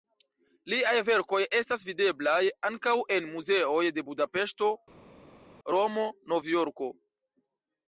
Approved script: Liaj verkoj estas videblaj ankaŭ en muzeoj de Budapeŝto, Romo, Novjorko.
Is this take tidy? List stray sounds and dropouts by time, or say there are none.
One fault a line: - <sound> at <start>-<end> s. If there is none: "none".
none